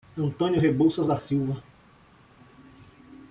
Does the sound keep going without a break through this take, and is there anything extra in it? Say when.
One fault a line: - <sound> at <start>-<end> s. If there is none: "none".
none